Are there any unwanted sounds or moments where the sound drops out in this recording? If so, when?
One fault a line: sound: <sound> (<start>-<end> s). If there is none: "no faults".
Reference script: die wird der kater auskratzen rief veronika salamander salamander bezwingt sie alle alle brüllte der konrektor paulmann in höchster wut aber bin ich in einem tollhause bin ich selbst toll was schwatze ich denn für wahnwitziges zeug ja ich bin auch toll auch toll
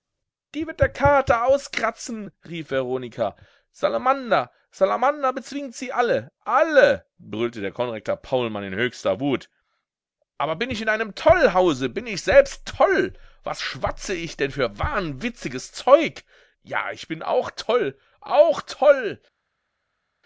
no faults